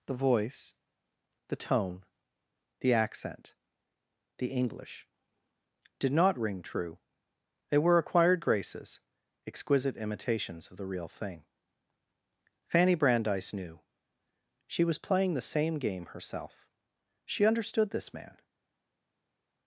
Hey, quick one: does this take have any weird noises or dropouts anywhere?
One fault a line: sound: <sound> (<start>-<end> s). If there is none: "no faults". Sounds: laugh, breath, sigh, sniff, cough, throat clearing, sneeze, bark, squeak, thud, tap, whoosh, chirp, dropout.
no faults